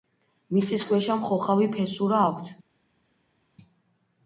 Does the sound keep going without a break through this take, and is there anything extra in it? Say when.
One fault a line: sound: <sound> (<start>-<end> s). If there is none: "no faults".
no faults